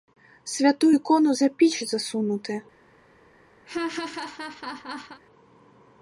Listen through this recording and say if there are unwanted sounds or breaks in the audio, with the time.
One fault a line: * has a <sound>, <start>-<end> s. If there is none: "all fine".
* has a laugh, 3.6-5.2 s